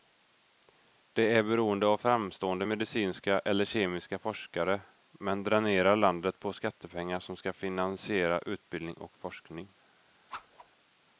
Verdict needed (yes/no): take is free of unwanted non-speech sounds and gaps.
no